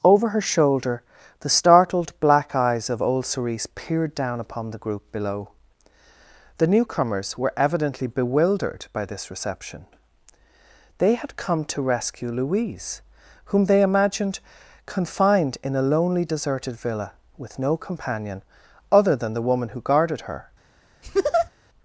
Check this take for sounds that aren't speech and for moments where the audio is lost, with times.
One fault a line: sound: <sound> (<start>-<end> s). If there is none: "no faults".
sound: laugh (21.0-21.5 s)